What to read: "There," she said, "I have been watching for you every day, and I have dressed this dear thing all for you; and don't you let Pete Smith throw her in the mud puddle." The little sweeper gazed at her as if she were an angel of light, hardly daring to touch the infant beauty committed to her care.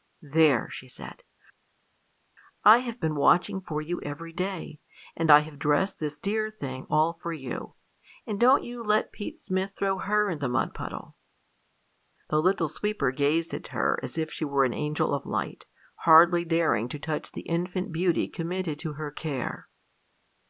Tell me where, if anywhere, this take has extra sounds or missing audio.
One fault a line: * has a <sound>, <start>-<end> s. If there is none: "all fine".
all fine